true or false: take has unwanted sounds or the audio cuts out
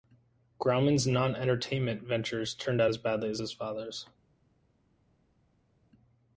false